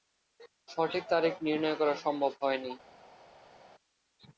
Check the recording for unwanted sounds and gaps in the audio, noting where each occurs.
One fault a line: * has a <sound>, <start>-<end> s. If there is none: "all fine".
all fine